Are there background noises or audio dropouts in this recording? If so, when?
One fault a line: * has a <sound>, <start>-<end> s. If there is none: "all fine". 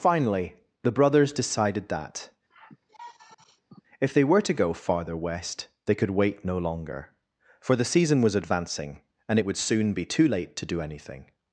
* has a sigh, 2.5-3.8 s